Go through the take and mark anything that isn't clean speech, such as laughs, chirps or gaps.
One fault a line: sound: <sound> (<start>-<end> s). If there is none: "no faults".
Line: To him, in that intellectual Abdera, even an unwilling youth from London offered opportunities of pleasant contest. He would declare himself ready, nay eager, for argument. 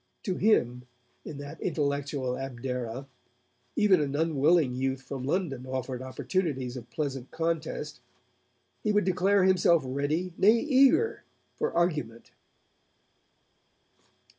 no faults